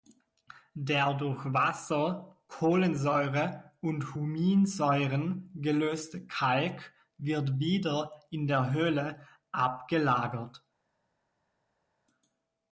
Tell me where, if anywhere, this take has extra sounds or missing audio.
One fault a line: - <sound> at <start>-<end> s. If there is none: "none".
none